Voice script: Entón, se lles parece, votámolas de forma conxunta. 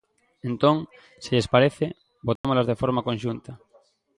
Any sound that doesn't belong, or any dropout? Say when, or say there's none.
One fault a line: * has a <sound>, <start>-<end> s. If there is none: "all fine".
* has a dropout, 2.4-2.4 s